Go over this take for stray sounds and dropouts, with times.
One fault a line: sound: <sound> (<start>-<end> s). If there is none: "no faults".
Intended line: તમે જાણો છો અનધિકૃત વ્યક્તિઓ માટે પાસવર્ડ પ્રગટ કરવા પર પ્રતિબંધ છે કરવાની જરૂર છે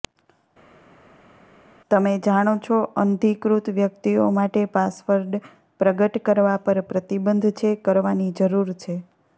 no faults